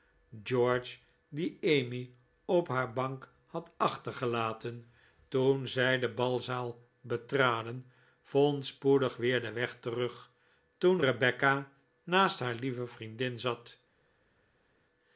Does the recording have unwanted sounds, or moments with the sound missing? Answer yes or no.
no